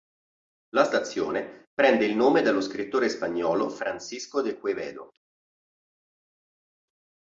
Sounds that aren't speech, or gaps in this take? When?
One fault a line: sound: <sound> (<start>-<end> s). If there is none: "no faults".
no faults